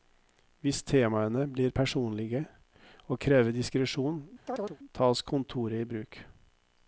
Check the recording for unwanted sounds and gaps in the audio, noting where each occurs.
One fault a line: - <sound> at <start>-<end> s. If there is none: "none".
- chirp at 4.5-4.8 s